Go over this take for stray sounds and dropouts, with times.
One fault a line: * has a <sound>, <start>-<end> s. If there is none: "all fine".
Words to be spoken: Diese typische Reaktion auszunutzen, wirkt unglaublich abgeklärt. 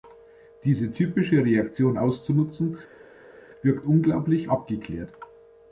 all fine